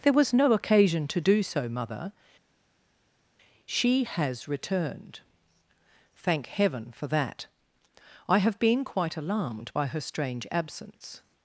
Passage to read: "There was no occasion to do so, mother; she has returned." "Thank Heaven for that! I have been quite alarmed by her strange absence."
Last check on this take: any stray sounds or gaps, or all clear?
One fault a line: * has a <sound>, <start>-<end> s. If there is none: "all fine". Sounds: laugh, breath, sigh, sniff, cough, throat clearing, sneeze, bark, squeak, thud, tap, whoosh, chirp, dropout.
all fine